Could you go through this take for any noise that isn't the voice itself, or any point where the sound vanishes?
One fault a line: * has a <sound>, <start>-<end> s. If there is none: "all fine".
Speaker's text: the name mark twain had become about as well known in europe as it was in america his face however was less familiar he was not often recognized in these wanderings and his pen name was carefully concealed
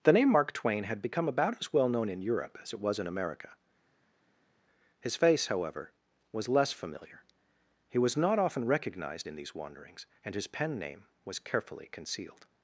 all fine